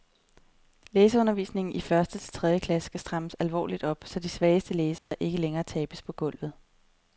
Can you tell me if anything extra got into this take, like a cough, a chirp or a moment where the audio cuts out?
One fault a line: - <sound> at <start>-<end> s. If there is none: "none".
- dropout at 5.0-5.1 s